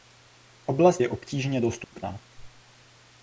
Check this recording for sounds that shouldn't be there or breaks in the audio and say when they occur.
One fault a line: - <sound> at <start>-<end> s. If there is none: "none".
- dropout at 1.8-1.9 s